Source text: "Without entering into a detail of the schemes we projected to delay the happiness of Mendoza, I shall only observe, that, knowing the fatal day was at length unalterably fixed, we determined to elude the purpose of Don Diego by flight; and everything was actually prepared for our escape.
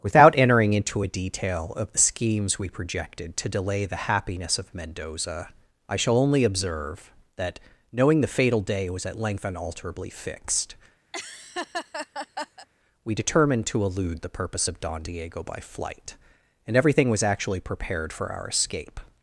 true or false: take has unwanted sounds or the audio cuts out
true